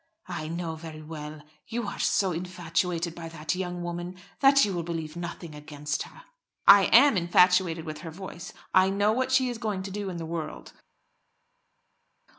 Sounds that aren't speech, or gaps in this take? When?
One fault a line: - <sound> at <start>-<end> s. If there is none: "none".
none